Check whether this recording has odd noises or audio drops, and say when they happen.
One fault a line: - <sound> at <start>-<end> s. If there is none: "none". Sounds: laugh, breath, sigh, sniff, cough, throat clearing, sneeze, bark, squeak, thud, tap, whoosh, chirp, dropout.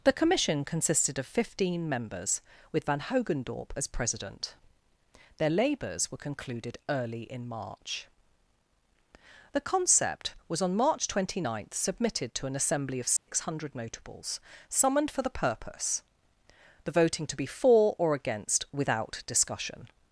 - dropout at 13.2-13.3 s